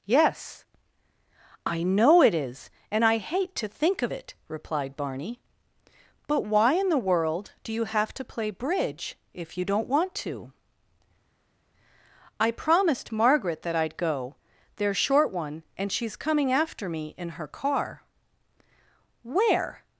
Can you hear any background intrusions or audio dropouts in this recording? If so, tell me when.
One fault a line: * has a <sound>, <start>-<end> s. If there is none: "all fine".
all fine